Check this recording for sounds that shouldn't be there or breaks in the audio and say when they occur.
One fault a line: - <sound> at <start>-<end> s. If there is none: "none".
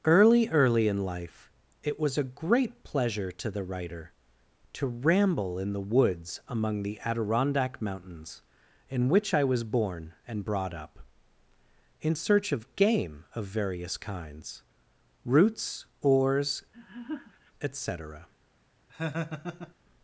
- laugh at 16.7-17.5 s
- laugh at 18.9-19.7 s